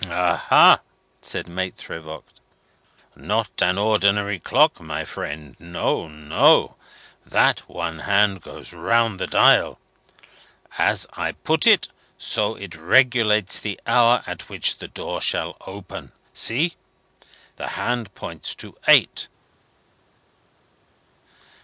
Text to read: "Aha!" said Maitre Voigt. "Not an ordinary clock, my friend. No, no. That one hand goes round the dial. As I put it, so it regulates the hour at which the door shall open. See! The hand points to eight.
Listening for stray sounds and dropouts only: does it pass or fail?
pass